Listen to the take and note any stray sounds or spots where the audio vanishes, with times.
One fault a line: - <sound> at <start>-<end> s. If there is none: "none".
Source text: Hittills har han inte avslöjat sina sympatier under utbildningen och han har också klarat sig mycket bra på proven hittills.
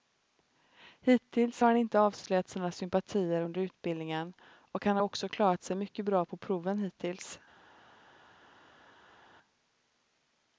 none